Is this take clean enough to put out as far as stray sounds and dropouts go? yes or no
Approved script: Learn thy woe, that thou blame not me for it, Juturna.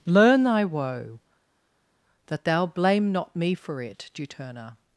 yes